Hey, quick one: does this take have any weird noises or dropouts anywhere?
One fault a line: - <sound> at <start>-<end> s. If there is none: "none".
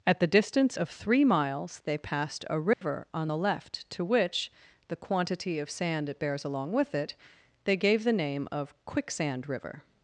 - dropout at 2.7-2.8 s